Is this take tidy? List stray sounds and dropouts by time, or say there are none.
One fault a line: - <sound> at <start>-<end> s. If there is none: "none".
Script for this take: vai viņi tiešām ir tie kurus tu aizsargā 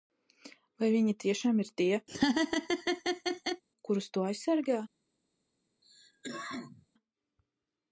- laugh at 2.1-3.6 s
- cough at 5.8-6.9 s